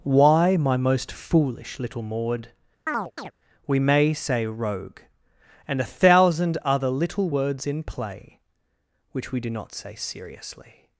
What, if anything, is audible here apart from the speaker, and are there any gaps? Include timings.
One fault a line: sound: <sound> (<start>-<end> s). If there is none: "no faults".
sound: chirp (2.9-3.3 s)